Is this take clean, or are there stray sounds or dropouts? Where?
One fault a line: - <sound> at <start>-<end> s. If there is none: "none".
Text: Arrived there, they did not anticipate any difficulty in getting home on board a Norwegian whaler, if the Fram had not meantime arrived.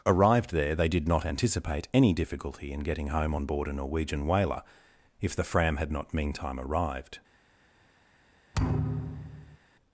- thud at 8.5-9.6 s